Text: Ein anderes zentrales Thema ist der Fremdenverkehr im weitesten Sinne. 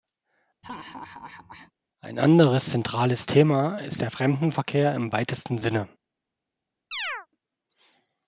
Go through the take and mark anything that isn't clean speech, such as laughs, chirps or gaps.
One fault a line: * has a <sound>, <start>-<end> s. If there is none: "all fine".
* has a laugh, 0.6-1.7 s
* has a chirp, 6.9-7.3 s